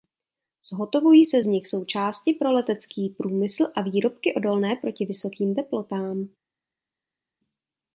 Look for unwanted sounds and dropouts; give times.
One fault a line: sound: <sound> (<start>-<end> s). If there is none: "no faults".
no faults